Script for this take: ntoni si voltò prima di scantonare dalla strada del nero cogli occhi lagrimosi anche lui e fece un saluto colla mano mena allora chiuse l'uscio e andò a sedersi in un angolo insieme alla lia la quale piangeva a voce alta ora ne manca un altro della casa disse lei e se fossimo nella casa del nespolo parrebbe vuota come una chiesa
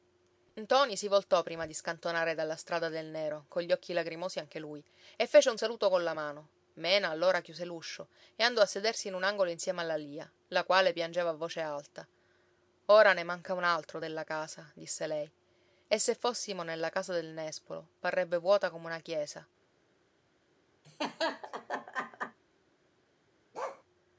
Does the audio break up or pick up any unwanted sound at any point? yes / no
yes